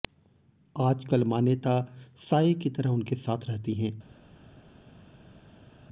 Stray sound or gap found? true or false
false